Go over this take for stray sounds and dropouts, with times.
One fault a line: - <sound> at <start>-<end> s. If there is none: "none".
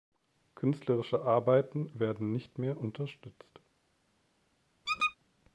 - squeak at 4.9-5.2 s